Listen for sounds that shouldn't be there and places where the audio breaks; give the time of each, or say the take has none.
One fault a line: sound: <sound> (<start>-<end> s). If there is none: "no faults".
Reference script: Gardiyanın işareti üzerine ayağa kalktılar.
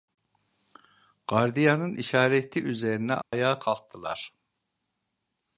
sound: dropout (3.2-3.3 s)